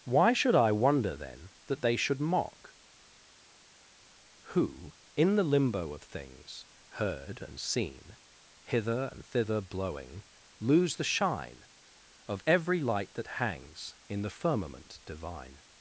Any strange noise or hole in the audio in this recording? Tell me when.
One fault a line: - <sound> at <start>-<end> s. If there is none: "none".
none